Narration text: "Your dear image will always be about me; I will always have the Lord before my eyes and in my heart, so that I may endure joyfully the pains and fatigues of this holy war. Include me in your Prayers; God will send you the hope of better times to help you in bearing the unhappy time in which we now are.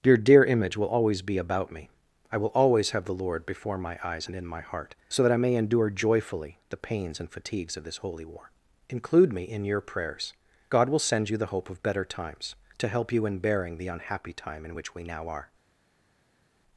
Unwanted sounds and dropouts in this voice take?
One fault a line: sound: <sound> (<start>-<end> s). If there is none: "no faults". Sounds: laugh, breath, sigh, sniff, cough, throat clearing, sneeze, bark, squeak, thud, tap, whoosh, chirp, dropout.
no faults